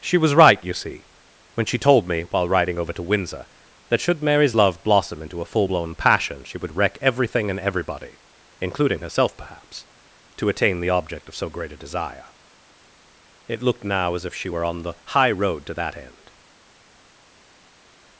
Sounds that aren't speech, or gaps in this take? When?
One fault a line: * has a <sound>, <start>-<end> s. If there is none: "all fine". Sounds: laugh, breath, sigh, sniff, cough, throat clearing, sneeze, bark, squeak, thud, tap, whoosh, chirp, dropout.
all fine